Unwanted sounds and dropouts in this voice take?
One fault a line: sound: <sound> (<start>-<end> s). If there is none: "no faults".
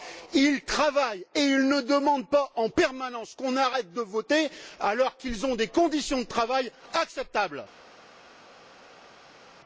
no faults